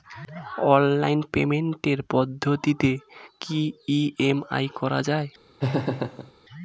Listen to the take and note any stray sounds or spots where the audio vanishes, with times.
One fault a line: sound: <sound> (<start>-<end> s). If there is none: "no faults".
sound: laugh (5.6-6.3 s)